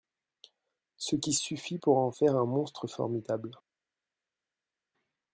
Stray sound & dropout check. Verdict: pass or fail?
pass